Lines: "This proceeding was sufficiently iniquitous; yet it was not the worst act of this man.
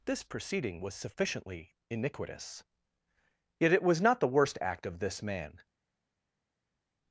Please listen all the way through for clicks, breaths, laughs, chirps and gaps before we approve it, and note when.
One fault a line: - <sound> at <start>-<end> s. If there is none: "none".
none